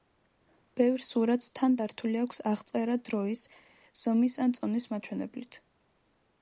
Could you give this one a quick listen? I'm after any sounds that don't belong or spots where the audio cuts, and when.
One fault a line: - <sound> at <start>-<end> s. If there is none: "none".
none